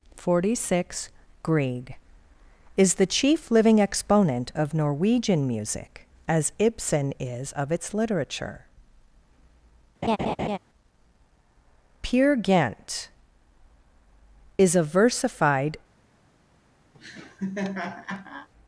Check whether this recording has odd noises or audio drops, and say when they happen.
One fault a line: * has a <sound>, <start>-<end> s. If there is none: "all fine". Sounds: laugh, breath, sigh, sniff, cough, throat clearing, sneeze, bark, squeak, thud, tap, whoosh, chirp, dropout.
* has a laugh, 10.0-10.6 s
* has a laugh, 16.9-18.5 s